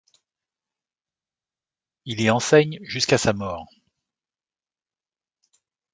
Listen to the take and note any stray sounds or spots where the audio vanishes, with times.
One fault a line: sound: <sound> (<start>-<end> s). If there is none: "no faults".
no faults